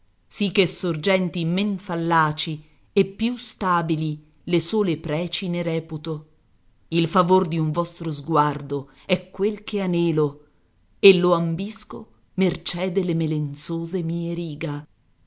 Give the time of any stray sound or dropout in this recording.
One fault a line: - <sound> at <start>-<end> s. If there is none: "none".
none